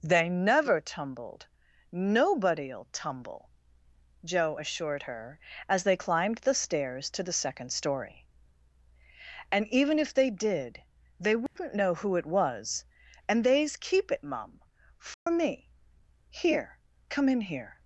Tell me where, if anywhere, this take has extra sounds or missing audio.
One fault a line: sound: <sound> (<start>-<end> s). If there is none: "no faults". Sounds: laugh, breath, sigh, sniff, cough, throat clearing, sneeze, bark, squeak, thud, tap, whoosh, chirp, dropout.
sound: dropout (11.5-11.6 s)
sound: dropout (15.1-15.3 s)